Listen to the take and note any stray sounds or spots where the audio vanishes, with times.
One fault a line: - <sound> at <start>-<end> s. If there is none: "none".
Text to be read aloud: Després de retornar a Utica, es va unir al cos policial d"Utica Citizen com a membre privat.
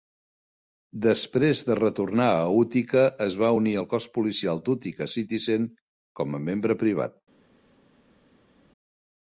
none